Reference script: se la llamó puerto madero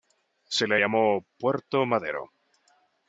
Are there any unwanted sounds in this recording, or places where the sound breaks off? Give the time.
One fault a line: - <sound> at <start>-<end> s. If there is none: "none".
none